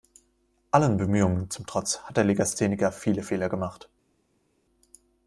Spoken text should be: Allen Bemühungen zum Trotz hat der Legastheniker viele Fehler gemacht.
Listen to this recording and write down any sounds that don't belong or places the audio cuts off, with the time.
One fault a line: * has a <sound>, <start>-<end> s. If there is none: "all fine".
all fine